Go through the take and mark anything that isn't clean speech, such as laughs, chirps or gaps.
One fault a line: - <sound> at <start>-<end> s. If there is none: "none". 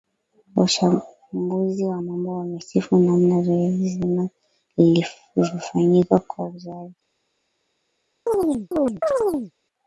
- chirp at 8.3-9.5 s